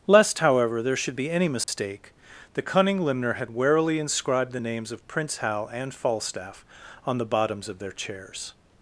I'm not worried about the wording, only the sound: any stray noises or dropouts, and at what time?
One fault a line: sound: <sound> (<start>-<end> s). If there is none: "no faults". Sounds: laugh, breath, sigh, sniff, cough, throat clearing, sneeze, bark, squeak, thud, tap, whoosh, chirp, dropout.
sound: dropout (1.6-1.7 s)